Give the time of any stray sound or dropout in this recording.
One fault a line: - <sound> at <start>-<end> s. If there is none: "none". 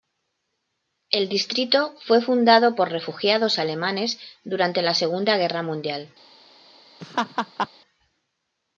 - laugh at 7.0-7.7 s